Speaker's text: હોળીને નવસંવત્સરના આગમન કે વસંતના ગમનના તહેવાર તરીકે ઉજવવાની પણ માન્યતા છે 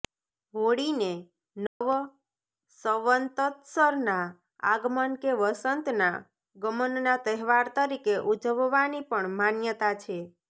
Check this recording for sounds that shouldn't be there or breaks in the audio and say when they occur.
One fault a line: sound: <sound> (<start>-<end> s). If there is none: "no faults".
sound: dropout (1.7-1.8 s)